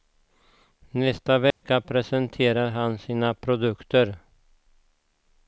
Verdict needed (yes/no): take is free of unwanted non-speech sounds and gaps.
no